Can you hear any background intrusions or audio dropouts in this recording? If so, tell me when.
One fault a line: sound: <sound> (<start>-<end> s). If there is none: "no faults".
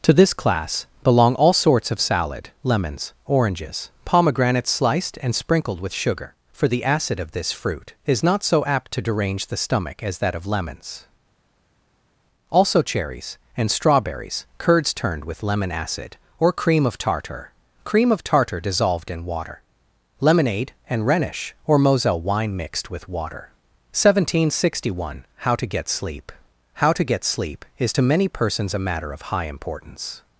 no faults